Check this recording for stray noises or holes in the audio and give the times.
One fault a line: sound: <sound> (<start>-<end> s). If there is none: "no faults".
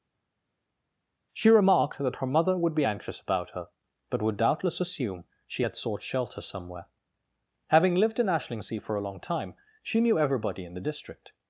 no faults